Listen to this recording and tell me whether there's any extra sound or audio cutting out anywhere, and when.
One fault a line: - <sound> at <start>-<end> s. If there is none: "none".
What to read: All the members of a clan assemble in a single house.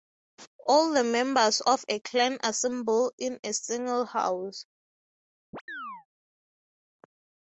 - chirp at 5.5-6.1 s